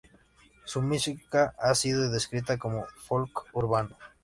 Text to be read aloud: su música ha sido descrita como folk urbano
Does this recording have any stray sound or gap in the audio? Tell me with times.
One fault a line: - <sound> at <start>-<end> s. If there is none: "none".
none